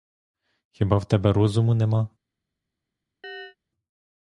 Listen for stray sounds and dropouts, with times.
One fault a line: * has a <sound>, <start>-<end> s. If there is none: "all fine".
* has a chirp, 3.2-3.6 s